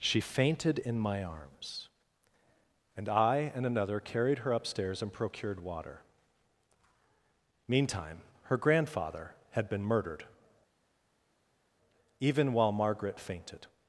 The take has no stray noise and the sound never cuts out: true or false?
true